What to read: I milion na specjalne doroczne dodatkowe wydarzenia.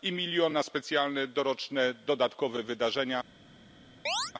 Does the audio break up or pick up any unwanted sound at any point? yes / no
yes